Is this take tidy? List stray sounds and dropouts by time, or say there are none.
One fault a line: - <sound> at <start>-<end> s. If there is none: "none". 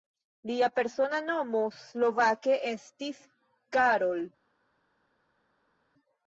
none